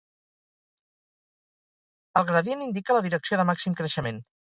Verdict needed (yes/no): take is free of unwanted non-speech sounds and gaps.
yes